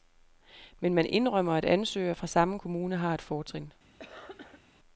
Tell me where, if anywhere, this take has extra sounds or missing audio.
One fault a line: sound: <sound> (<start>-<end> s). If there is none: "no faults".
sound: cough (4.0-4.6 s)